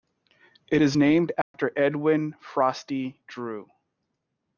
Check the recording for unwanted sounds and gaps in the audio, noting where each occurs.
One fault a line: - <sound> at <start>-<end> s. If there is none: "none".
- dropout at 1.4-1.5 s